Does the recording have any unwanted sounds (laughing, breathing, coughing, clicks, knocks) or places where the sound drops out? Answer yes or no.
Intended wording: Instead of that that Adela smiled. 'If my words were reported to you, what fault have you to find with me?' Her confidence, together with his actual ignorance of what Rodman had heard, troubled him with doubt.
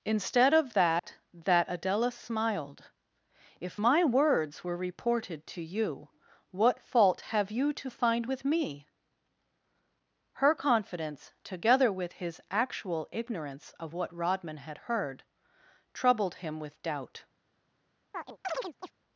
yes